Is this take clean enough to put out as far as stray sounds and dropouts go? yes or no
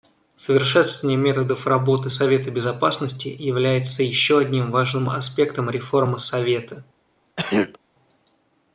no